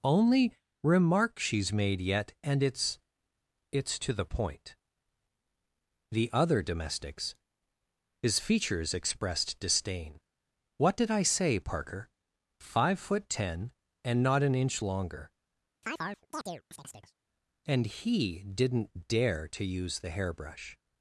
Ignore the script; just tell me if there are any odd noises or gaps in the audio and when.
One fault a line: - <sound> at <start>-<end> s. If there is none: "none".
- chirp at 15.8-17.1 s